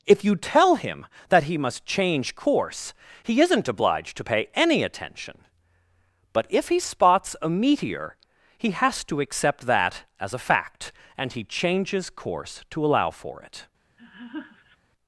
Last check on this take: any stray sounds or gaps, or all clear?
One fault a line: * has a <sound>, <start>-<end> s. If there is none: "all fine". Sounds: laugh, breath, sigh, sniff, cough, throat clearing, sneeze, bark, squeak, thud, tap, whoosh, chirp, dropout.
* has a laugh, 14.0-14.8 s